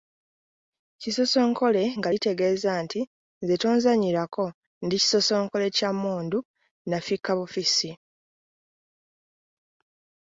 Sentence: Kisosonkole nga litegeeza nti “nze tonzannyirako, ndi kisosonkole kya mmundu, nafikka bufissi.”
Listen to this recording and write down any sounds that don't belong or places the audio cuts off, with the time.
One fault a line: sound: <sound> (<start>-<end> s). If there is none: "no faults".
no faults